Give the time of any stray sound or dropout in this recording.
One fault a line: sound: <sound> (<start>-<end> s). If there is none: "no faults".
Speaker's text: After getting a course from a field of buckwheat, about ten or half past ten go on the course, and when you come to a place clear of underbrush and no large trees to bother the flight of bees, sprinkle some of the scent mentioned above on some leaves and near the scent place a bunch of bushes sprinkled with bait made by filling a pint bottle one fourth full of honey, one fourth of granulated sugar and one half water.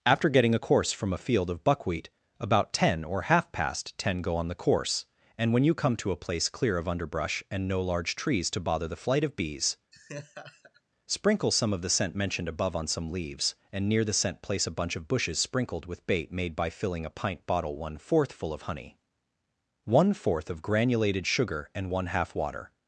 sound: laugh (9.9-10.8 s)